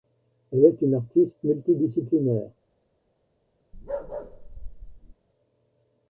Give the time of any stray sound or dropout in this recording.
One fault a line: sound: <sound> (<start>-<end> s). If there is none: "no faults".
sound: bark (3.7-5.1 s)